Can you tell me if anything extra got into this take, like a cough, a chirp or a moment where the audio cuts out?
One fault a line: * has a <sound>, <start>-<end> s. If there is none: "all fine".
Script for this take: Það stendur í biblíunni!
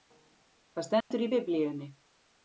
* has a dropout, 1.0-1.1 s